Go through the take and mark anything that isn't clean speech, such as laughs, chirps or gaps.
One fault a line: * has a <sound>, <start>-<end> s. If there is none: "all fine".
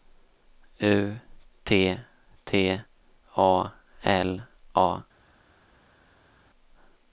all fine